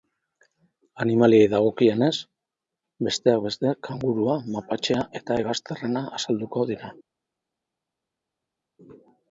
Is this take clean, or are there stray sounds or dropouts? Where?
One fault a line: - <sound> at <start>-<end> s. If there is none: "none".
none